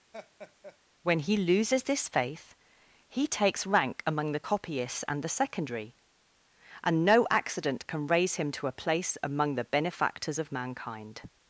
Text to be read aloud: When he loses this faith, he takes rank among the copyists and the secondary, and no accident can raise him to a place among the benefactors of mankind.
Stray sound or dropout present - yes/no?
yes